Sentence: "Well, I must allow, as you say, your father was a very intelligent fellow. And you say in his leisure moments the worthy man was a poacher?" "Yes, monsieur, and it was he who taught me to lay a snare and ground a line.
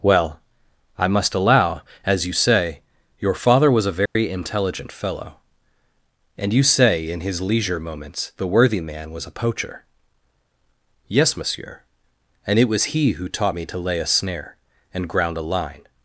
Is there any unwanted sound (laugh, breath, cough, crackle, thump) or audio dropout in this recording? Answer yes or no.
yes